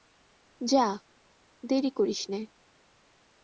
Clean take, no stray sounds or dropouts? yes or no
yes